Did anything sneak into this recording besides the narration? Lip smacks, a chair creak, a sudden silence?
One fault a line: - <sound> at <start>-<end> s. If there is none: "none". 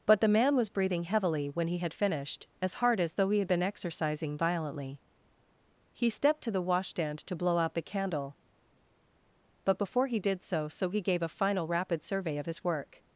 none